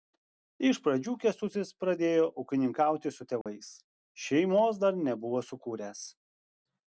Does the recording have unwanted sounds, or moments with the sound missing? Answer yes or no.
yes